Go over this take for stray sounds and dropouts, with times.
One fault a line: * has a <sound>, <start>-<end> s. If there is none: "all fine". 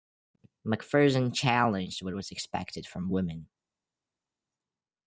all fine